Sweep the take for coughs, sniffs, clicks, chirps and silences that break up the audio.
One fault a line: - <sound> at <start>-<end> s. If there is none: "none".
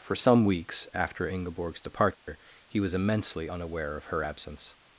- dropout at 2.1-2.3 s